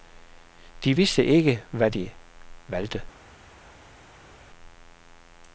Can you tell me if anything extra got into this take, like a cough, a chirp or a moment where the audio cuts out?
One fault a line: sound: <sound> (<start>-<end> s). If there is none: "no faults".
no faults